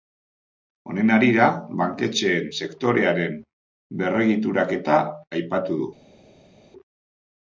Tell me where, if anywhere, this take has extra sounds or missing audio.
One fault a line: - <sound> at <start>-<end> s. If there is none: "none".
none